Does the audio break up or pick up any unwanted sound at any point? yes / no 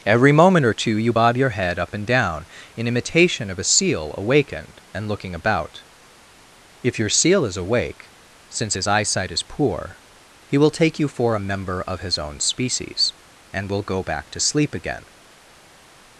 no